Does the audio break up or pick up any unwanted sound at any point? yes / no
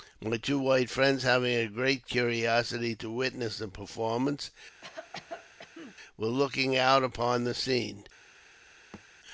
yes